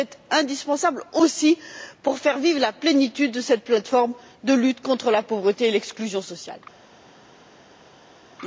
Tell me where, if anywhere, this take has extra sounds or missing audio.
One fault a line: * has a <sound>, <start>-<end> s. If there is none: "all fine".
all fine